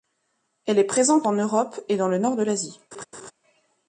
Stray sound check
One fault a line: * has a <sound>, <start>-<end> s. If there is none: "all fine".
* has a laugh, 2.9-3.3 s